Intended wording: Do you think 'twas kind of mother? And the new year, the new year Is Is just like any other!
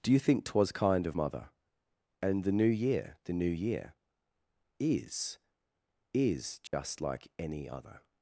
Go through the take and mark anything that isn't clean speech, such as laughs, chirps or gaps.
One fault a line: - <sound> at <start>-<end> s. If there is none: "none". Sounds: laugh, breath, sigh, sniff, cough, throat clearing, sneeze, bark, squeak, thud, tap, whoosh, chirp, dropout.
- dropout at 6.7-6.7 s